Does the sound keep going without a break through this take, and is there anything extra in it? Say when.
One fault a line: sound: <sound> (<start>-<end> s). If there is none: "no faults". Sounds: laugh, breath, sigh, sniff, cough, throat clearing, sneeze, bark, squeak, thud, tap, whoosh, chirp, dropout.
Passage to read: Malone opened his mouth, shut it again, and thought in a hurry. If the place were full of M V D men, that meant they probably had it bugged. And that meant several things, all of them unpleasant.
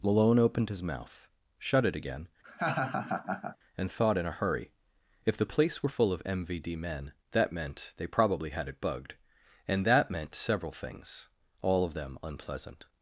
sound: laugh (2.4-3.6 s)